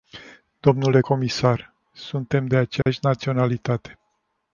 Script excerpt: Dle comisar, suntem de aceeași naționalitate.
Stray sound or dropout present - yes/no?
yes